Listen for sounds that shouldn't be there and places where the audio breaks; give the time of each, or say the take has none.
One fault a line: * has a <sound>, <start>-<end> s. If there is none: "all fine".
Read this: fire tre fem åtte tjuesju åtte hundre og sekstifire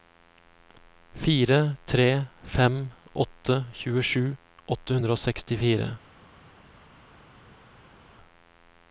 all fine